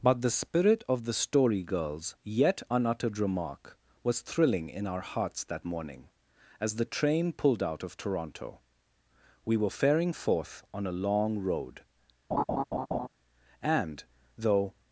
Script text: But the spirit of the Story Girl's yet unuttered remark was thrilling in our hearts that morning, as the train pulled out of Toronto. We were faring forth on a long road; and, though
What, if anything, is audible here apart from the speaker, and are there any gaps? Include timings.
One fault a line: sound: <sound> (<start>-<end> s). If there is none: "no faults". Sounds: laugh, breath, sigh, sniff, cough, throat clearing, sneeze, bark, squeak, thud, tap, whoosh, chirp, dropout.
sound: laugh (12.3-13.1 s)